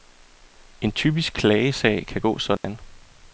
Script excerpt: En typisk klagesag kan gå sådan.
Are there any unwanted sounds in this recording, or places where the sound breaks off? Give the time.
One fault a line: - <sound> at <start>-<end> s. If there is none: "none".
- dropout at 2.6-2.6 s